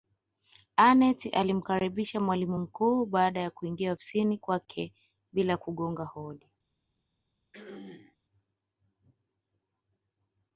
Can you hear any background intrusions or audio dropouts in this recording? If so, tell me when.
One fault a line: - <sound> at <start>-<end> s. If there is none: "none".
- throat clearing at 7.5-8.2 s